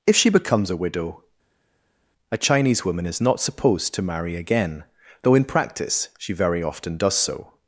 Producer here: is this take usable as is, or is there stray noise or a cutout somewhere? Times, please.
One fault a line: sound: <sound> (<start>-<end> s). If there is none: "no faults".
no faults